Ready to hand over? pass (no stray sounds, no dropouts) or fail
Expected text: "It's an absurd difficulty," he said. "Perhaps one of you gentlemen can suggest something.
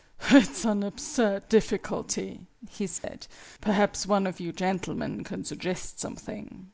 fail